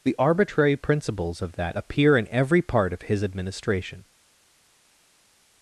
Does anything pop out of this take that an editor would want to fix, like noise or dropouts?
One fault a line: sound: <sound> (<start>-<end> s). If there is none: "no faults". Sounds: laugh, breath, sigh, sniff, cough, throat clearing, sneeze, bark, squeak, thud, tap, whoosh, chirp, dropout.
no faults